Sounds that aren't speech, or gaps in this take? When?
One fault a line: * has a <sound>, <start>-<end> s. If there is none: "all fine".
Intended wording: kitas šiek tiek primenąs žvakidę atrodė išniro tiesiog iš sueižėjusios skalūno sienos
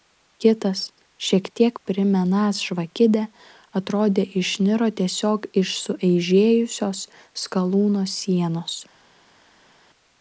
all fine